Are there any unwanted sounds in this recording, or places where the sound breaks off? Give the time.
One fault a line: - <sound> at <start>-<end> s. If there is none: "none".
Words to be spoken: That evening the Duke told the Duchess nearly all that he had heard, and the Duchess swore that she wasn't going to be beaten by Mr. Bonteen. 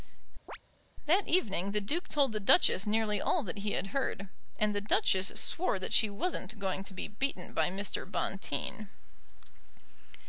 - chirp at 0.5-0.6 s